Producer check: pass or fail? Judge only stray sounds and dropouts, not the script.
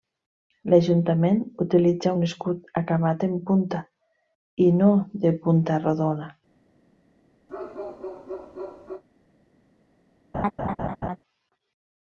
fail